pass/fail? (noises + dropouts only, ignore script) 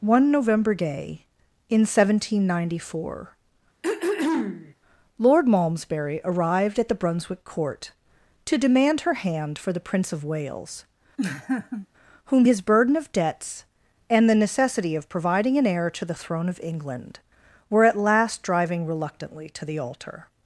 fail